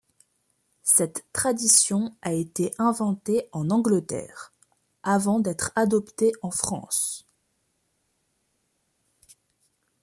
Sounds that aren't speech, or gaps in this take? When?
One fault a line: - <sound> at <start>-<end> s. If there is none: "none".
none